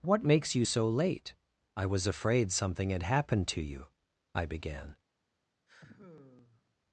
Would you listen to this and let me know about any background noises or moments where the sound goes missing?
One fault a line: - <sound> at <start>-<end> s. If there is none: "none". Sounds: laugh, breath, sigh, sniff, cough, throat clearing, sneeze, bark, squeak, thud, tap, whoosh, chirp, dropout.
- sigh at 5.7-6.8 s